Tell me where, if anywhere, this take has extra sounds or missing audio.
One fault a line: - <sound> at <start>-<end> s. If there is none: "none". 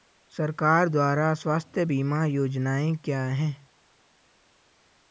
none